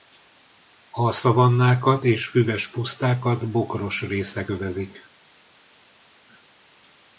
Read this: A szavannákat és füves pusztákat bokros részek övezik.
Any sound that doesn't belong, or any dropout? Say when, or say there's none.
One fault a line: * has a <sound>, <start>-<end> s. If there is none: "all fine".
all fine